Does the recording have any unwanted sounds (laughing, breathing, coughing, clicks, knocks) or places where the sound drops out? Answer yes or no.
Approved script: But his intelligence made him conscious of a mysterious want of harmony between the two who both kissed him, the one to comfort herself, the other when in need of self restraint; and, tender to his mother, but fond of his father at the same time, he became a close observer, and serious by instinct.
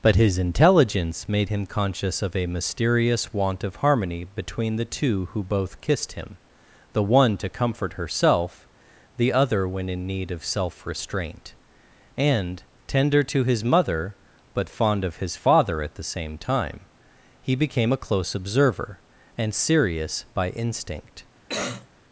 yes